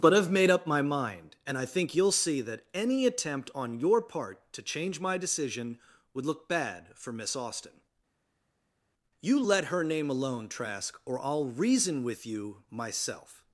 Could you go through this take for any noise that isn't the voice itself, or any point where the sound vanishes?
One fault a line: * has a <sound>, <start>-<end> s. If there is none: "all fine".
all fine